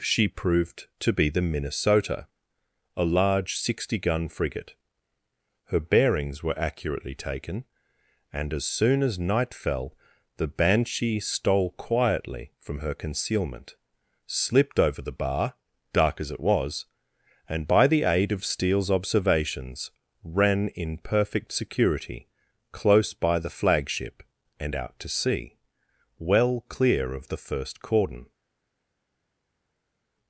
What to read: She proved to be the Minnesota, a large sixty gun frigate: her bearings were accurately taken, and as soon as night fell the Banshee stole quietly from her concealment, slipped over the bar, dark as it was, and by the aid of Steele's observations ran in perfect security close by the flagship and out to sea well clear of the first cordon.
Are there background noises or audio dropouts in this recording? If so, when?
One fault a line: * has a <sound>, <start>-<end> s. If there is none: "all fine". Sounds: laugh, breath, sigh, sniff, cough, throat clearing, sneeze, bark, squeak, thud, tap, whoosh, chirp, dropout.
all fine